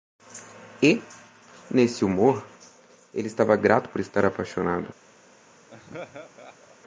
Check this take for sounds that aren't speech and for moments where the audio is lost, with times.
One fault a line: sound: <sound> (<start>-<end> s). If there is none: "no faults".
sound: laugh (5.7-6.8 s)